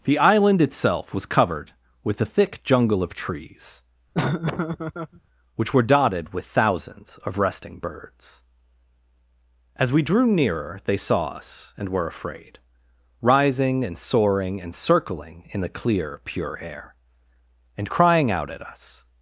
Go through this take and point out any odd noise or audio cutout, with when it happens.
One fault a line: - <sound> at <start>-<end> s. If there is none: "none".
- laugh at 4.1-5.2 s